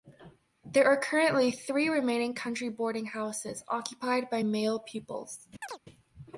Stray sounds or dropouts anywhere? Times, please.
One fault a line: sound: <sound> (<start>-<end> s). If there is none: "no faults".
sound: chirp (5.6-5.8 s)